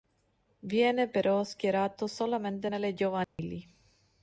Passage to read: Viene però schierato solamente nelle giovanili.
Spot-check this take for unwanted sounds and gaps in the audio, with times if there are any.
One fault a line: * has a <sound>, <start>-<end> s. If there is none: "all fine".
* has a dropout, 3.2-3.4 s